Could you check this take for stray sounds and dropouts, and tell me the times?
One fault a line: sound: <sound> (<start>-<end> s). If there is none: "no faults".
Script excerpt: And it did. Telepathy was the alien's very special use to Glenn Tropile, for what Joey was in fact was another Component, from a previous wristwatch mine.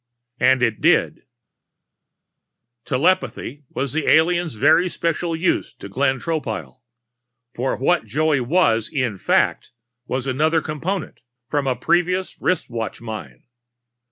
no faults